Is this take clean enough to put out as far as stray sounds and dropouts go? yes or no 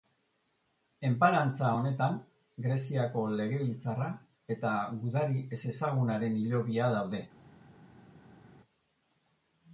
yes